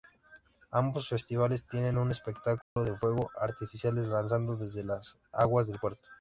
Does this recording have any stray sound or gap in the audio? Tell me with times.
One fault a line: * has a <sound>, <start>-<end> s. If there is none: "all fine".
* has a dropout, 2.6-2.8 s